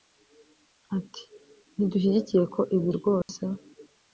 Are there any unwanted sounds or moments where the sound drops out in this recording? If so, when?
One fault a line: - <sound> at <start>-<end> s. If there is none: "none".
- dropout at 3.2-3.3 s